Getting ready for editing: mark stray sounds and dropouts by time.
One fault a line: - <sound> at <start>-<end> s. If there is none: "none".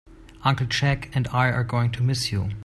none